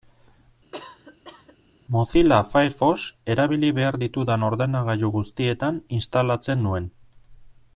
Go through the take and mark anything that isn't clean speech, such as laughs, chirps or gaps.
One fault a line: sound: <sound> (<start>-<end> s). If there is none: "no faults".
sound: cough (0.7-1.6 s)